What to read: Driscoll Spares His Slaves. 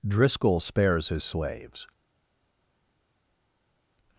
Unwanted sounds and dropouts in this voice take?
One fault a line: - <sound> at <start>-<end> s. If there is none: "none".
none